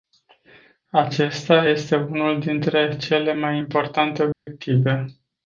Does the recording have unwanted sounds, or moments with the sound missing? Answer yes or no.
yes